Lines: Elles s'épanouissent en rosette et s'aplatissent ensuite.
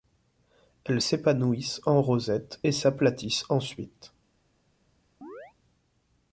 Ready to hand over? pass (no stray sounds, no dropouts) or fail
fail